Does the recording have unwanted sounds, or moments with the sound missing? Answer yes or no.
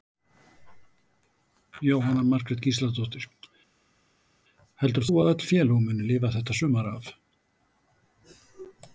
no